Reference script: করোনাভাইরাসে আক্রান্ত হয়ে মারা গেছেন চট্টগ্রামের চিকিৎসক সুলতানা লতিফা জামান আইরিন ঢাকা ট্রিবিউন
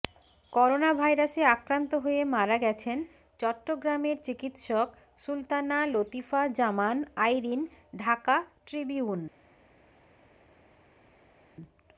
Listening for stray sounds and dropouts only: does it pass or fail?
pass